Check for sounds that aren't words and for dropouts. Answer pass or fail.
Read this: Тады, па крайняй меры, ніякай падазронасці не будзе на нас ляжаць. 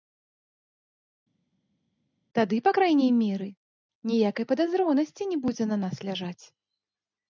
pass